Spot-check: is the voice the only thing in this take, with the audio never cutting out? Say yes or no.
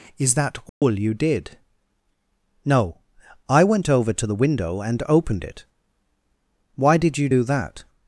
no